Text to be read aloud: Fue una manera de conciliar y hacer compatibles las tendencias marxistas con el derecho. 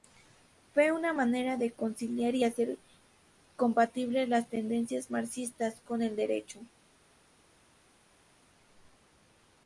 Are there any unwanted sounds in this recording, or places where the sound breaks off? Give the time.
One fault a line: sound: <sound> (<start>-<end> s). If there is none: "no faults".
no faults